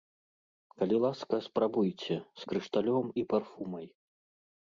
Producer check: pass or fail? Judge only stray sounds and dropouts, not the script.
pass